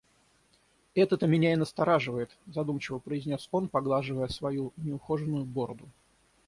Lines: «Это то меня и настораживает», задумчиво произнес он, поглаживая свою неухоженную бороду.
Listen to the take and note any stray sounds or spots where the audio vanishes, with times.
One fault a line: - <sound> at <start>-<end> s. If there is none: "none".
none